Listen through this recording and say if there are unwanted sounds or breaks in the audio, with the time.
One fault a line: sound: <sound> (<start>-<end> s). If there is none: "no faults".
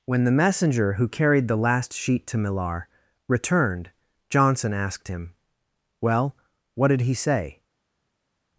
no faults